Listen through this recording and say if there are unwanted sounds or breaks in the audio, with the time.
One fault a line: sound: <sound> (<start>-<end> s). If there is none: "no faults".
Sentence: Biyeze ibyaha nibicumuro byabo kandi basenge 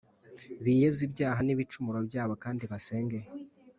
no faults